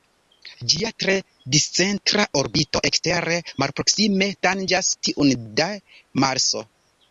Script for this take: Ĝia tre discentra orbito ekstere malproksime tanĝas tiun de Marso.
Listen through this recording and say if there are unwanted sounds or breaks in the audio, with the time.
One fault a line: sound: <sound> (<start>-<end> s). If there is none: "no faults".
no faults